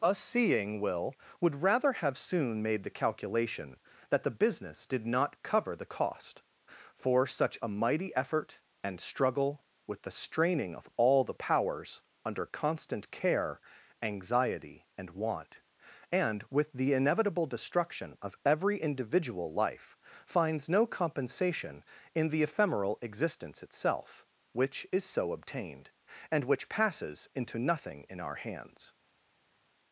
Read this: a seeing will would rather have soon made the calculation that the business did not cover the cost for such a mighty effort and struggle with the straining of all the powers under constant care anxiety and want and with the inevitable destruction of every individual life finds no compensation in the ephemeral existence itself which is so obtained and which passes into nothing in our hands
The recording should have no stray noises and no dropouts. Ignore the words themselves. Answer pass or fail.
pass